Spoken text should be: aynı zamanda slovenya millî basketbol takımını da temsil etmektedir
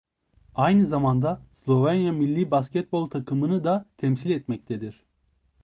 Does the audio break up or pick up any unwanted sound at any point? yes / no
no